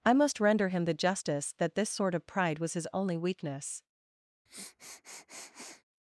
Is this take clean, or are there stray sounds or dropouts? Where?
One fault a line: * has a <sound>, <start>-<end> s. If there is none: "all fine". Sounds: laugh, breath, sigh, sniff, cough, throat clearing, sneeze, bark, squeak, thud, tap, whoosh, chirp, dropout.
* has a sniff, 4.5-5.8 s